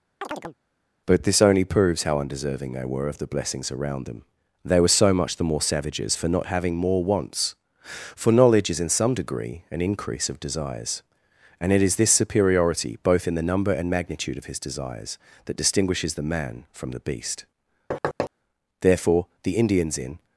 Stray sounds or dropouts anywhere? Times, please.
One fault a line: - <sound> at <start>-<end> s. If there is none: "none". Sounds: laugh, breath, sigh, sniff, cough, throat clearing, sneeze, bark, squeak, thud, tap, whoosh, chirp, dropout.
- chirp at 0.2-0.6 s
- thud at 17.9-18.3 s